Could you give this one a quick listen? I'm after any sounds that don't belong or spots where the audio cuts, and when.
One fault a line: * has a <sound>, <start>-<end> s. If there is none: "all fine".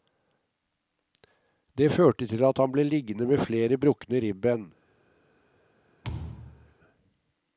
* has a thud, 6.0-6.7 s